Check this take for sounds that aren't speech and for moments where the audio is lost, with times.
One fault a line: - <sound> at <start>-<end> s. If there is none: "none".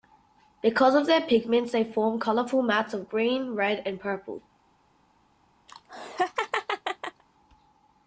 - laugh at 5.7-7.2 s